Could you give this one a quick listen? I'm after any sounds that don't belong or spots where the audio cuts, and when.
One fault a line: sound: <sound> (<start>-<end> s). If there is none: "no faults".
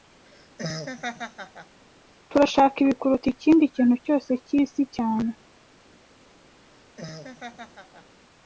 sound: laugh (0.3-1.8 s)
sound: laugh (6.6-8.2 s)